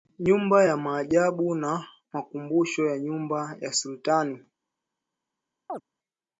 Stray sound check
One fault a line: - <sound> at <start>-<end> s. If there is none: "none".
- chirp at 5.7-5.8 s